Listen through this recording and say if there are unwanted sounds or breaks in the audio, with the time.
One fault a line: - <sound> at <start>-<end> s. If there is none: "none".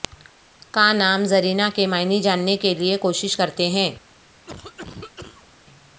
- cough at 4.5-5.5 s